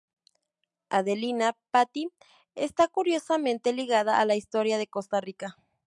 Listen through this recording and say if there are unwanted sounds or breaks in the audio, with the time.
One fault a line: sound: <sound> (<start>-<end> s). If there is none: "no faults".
no faults